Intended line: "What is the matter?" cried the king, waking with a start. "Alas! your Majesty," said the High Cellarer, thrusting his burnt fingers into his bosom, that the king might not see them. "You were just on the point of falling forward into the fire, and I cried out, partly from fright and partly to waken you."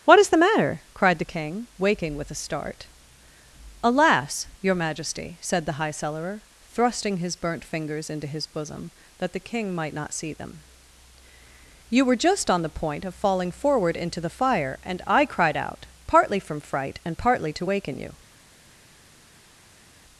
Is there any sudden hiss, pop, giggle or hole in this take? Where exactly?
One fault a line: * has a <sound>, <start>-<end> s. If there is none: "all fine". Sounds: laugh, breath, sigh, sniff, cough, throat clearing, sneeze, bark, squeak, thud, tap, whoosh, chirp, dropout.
all fine